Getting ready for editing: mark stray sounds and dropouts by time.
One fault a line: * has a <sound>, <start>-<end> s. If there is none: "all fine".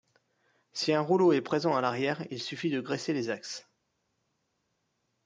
all fine